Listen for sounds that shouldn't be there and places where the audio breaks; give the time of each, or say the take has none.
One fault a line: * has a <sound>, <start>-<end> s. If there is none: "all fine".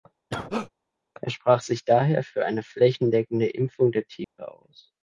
* has a cough, 0.3-0.7 s
* has a dropout, 4.2-4.4 s